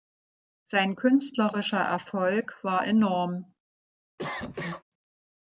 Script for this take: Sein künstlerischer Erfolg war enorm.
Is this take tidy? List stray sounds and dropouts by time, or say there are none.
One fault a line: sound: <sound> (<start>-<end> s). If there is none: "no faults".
sound: cough (4.2-4.8 s)